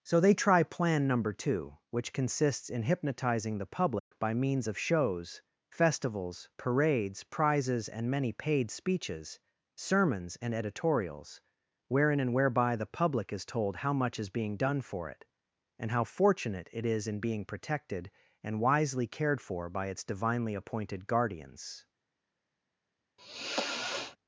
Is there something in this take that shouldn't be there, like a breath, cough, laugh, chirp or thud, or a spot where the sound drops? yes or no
yes